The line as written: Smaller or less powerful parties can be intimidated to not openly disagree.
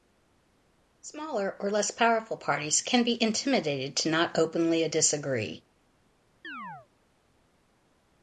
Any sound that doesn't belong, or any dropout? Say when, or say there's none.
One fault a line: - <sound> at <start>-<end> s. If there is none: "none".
- chirp at 6.4-6.9 s